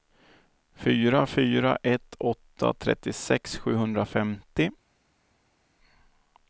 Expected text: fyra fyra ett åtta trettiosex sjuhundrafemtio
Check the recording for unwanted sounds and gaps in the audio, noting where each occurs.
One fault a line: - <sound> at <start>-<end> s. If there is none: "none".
none